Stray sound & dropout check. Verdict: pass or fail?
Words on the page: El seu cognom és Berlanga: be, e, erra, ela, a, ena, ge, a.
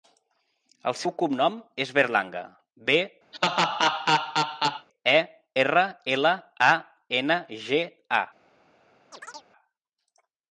fail